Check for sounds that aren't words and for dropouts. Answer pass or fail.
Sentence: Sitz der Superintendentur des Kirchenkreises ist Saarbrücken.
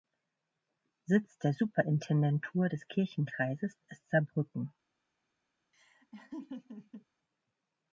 fail